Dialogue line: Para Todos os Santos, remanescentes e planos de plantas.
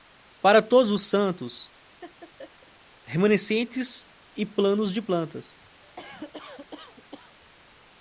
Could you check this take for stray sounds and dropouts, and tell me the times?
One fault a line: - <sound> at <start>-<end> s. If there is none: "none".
- laugh at 2.0-2.7 s
- cough at 5.8-7.3 s